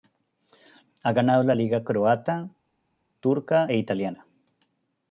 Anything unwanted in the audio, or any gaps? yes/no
no